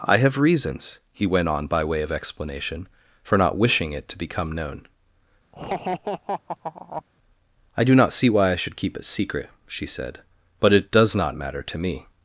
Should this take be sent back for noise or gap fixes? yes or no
yes